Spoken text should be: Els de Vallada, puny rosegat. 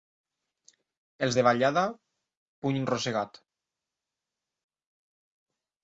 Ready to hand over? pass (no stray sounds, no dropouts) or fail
pass